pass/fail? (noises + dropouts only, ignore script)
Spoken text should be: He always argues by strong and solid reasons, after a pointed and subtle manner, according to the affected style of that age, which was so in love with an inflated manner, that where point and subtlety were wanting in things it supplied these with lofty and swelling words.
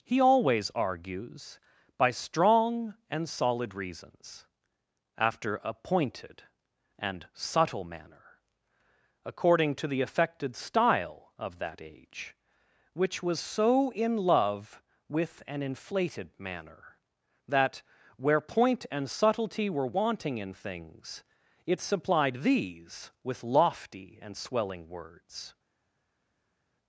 pass